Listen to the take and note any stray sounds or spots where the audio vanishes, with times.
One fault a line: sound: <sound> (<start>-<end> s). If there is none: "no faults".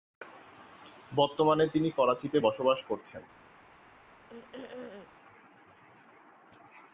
sound: throat clearing (4.3-5.1 s)